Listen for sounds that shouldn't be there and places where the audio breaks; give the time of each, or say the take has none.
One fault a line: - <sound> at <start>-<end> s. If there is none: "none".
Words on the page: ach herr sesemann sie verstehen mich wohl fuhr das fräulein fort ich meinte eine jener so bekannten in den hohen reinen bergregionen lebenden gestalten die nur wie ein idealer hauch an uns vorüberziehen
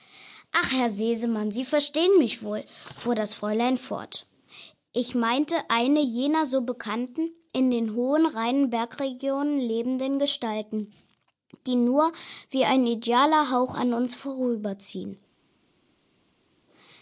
none